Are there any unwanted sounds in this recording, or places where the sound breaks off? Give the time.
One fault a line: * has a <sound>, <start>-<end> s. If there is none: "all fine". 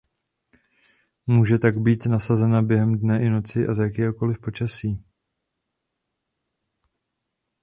all fine